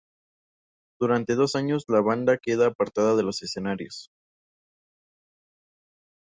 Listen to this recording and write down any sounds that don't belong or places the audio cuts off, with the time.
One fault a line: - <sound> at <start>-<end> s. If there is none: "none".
none